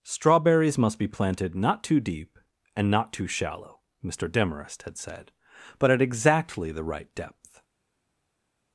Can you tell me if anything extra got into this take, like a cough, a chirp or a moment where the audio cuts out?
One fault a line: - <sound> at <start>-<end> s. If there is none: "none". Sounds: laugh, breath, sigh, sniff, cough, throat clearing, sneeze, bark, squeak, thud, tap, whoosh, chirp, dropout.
none